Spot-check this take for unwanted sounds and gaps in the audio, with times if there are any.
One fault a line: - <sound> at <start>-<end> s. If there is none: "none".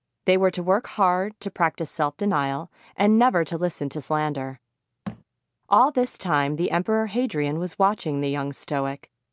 - thud at 5.1-5.2 s